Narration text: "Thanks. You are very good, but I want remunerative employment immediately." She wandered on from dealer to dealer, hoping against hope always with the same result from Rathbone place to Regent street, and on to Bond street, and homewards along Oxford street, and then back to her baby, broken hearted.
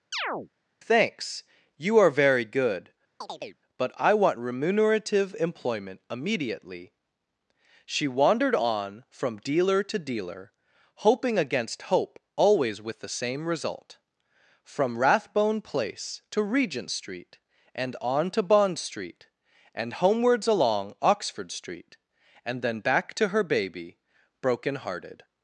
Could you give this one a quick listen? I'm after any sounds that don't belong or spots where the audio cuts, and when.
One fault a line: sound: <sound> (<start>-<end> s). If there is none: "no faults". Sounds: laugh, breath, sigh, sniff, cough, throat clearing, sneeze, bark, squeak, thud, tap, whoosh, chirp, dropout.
sound: chirp (0.1-0.5 s)
sound: chirp (3.2-3.6 s)